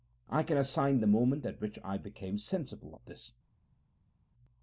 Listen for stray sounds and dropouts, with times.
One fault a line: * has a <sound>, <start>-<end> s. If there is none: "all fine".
all fine